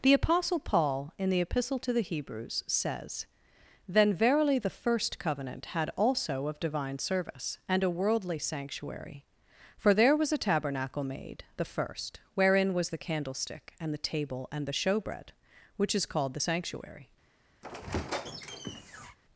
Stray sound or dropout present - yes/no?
yes